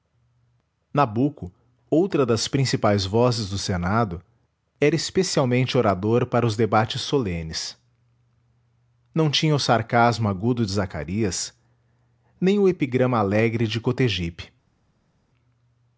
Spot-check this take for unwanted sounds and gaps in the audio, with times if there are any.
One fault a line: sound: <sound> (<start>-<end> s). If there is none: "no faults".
no faults